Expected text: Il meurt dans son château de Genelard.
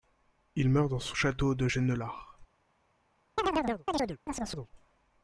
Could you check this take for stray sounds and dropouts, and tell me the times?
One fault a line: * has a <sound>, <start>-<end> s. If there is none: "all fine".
* has a chirp, 3.4-4.7 s